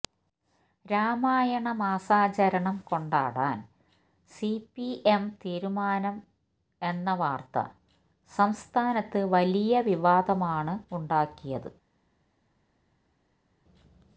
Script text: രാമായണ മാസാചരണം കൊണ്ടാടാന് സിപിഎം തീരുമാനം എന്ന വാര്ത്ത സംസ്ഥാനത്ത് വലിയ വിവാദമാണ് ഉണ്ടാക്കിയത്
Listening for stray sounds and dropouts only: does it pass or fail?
pass